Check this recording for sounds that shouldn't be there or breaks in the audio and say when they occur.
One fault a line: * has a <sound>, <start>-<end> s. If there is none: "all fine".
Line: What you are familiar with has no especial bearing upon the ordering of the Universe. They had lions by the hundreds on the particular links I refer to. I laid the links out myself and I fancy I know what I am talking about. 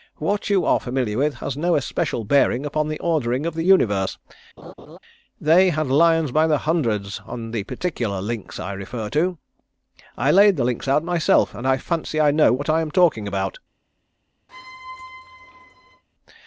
* has a laugh, 4.6-5.0 s
* has a squeak, 14.5-16.0 s